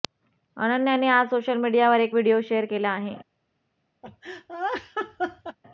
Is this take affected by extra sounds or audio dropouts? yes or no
yes